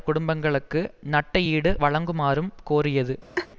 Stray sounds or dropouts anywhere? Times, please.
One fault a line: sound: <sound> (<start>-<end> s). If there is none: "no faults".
sound: laugh (3.3-3.5 s)